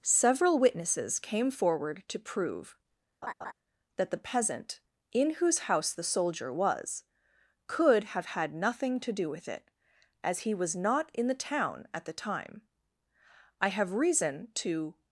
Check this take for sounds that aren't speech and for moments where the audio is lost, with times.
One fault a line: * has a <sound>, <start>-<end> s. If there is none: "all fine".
* has a laugh, 3.2-3.5 s